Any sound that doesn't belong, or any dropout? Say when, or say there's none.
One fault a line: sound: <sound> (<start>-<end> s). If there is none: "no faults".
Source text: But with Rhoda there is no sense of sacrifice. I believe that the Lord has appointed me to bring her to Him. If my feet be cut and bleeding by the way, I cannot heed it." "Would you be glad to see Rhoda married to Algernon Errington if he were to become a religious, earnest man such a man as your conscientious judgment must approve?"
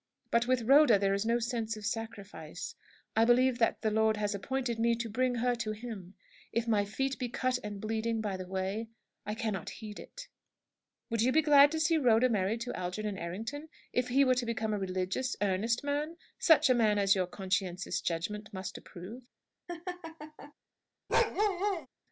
sound: laugh (19.7-20.5 s)
sound: bark (21.1-21.9 s)